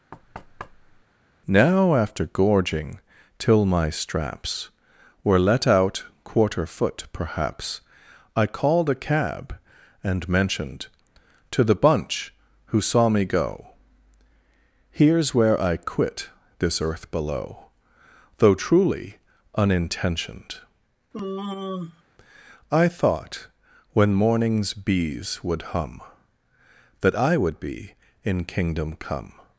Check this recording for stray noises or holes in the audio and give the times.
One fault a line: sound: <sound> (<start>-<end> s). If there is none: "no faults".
sound: thud (0.1-1.0 s)
sound: sigh (21.1-22.0 s)